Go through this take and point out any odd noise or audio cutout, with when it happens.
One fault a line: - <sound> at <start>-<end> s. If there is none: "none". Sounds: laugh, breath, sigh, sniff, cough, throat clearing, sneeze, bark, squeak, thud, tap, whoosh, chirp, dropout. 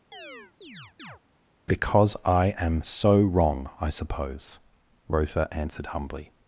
- chirp at 0.1-1.2 s